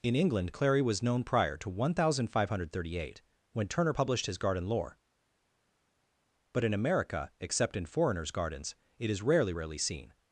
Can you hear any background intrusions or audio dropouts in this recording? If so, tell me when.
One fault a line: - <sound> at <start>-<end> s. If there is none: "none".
none